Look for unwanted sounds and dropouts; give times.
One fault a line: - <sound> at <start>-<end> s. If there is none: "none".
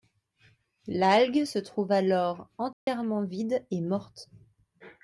- dropout at 2.7-2.9 s